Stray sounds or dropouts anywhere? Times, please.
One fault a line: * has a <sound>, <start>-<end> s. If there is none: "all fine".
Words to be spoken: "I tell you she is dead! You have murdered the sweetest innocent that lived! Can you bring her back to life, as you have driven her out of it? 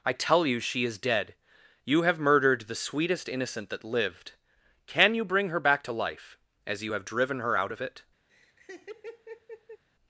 * has a laugh, 8.3-9.8 s